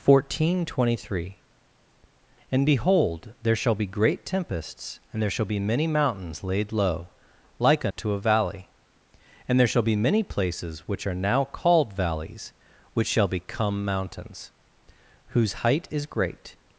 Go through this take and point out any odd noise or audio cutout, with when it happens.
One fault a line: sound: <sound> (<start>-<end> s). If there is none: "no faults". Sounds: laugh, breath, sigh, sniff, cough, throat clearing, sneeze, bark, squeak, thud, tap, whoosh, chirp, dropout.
sound: dropout (7.9-8.0 s)